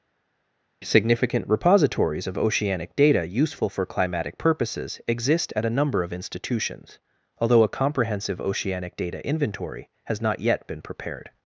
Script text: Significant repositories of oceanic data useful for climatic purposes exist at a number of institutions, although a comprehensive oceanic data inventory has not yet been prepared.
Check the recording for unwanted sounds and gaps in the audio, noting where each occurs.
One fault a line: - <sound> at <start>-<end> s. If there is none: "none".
none